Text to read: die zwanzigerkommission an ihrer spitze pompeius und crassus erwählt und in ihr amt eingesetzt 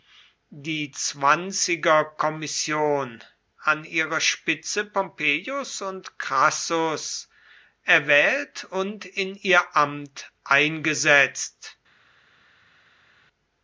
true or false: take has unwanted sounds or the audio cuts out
false